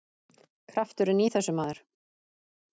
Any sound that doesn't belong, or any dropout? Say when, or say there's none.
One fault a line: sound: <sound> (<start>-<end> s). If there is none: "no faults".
no faults